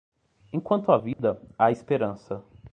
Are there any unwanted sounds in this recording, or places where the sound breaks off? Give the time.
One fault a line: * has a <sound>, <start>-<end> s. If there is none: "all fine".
* has a dropout, 1.1-1.2 s